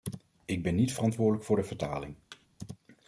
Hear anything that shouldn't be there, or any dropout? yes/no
yes